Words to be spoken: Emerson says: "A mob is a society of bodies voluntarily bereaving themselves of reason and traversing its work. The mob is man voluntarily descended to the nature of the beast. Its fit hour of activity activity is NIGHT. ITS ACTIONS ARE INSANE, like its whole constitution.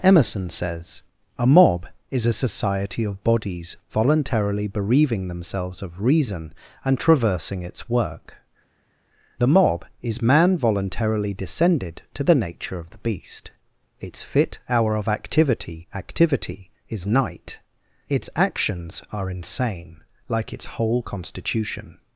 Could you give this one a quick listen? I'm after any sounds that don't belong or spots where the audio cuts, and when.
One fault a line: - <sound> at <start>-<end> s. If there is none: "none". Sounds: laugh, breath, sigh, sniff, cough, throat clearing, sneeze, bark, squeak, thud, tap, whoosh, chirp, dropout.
none